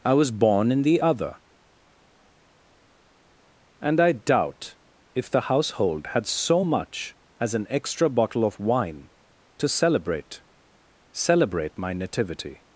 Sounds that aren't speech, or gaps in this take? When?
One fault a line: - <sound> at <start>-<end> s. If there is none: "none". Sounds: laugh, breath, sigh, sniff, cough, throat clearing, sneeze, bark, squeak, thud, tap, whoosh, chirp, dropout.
none